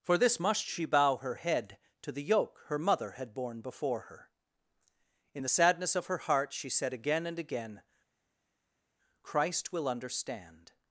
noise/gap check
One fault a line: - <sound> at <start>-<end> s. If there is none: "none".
none